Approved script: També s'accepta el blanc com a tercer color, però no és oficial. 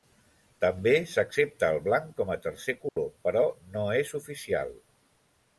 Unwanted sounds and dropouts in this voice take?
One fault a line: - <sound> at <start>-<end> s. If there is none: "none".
- dropout at 2.9-3.0 s